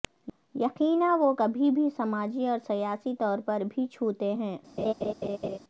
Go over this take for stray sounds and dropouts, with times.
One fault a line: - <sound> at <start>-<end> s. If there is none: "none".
- laugh at 4.8-5.6 s